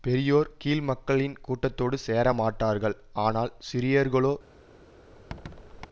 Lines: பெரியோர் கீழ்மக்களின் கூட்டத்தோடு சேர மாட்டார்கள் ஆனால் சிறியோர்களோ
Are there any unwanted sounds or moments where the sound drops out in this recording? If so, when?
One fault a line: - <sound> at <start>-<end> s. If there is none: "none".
- squeak at 5.1-5.9 s